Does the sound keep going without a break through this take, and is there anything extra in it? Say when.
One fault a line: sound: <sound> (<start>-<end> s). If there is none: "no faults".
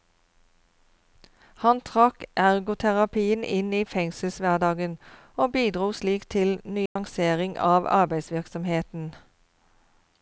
sound: dropout (6.9-7.0 s)